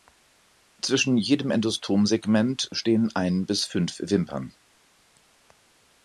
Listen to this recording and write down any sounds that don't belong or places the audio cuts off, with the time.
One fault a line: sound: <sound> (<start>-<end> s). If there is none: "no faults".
no faults